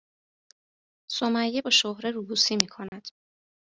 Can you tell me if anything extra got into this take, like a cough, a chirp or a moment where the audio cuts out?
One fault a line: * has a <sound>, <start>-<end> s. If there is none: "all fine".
* has a dropout, 2.9-2.9 s